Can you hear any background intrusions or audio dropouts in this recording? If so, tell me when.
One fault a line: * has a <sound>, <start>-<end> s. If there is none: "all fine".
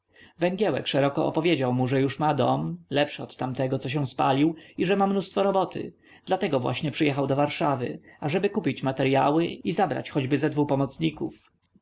all fine